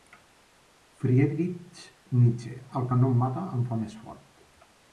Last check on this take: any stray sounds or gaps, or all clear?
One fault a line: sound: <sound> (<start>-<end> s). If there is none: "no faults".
no faults